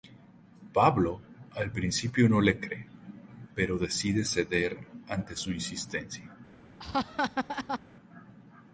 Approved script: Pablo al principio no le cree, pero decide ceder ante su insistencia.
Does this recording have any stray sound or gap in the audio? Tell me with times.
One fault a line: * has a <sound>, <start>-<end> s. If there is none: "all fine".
* has a laugh, 6.8-7.8 s